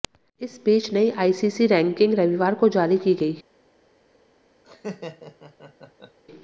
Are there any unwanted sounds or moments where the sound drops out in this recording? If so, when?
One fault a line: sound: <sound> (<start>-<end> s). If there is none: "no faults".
sound: laugh (4.6-6.2 s)